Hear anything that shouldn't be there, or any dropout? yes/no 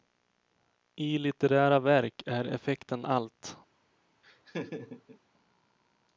yes